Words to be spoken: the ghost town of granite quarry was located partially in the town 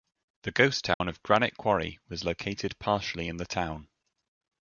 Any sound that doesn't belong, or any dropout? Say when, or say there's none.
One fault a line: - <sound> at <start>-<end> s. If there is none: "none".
- dropout at 0.9-1.0 s